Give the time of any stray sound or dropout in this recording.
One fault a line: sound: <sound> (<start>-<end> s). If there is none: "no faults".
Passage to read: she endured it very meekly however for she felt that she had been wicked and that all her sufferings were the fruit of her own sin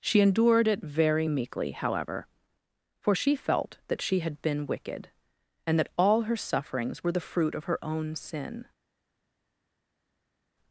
no faults